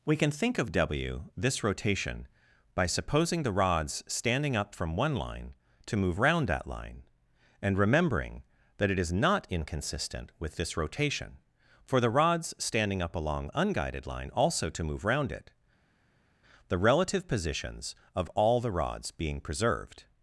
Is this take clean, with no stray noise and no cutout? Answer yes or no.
yes